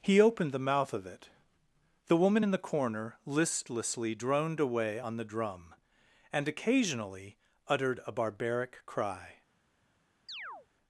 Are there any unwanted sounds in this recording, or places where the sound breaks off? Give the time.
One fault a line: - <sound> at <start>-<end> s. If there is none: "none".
- chirp at 10.3-10.7 s